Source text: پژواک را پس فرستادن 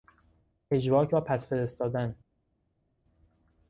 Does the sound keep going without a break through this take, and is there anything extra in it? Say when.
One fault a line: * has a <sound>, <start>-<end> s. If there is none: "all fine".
all fine